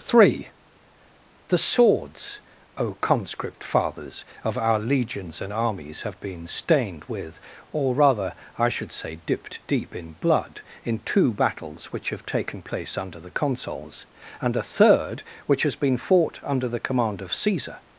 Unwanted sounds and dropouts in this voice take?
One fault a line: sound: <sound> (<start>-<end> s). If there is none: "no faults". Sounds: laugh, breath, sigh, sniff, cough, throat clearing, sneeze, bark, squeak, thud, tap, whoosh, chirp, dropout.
no faults